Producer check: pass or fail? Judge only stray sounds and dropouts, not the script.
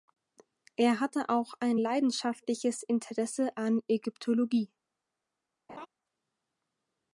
fail